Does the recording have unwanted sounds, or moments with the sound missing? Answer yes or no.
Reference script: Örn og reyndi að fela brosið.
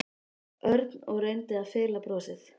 no